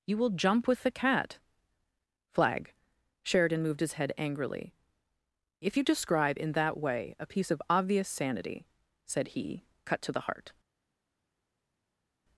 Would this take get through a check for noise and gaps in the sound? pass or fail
pass